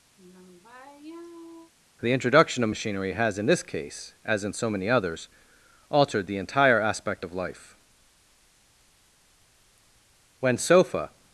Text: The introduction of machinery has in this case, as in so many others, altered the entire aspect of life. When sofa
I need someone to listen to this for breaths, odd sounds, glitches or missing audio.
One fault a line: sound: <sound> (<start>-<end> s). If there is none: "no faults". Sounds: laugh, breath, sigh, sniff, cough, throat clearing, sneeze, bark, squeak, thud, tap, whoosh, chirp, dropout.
sound: sigh (0.2-1.7 s)